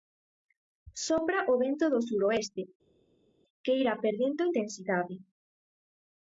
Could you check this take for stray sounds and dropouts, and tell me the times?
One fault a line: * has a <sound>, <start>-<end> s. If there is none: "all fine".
all fine